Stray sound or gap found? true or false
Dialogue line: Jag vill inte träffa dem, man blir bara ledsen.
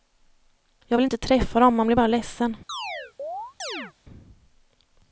true